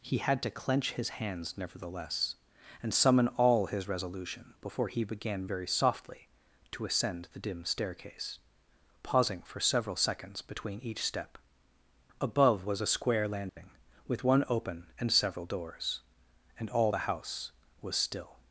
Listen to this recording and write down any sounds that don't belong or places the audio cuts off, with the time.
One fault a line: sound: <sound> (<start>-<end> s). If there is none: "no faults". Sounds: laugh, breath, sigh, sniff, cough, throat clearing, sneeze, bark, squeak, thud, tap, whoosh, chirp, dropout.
sound: dropout (13.5-13.6 s)